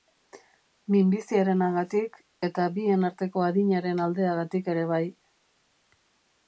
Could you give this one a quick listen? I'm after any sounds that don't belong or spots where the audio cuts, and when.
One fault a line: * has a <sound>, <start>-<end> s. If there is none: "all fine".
all fine